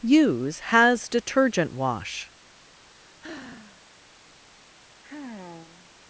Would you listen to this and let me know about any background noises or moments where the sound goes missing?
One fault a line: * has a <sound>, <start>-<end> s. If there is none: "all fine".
* has a sigh, 2.9-3.8 s
* has a sigh, 5.0-5.9 s